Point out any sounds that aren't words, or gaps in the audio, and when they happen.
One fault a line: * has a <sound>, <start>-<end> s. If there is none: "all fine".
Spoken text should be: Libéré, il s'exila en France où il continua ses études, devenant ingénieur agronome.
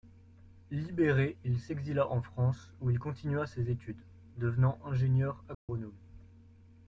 * has a dropout, 5.5-5.7 s